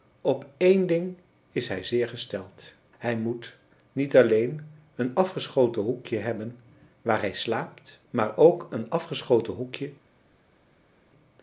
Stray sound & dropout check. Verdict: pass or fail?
pass